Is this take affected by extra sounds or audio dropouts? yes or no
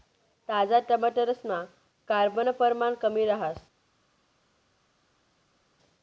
no